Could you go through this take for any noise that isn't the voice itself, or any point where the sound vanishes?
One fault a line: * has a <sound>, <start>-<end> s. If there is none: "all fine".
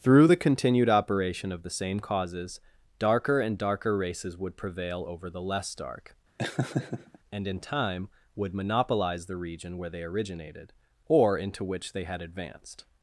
* has a laugh, 6.4-7.2 s